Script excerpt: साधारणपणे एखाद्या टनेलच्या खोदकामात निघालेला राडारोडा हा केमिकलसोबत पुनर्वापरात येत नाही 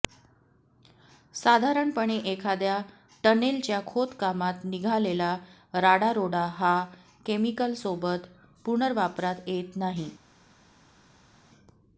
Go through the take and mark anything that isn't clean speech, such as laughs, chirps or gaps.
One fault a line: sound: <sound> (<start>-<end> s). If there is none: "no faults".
no faults